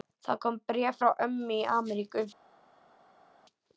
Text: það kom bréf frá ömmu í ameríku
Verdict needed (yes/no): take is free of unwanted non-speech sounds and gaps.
yes